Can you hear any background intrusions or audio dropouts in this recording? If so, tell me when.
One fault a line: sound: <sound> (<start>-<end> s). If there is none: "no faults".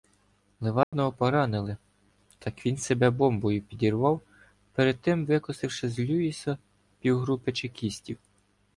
sound: dropout (0.8-0.9 s)